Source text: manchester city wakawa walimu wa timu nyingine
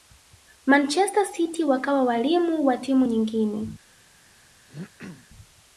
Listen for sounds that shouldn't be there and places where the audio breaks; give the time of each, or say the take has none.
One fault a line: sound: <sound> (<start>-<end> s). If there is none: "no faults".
sound: throat clearing (4.7-5.3 s)